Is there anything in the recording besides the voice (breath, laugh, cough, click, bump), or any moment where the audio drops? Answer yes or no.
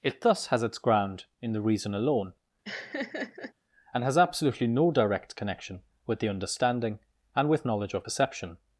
yes